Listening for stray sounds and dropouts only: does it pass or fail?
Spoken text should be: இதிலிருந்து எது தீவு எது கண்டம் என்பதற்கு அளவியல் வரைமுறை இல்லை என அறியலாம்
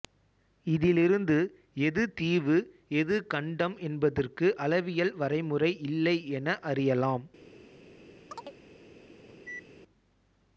fail